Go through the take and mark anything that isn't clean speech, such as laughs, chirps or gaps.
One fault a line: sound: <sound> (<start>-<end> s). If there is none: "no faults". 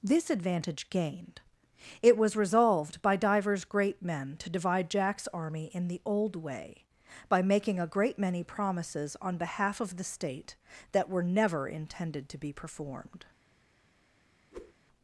sound: whoosh (14.5-14.7 s)